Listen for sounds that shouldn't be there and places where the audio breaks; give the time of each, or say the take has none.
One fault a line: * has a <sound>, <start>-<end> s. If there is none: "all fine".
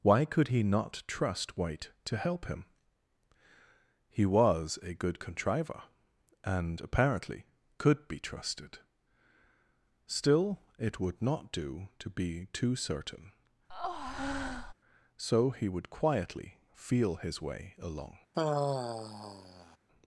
* has a breath, 13.7-14.7 s
* has a sigh, 18.3-19.8 s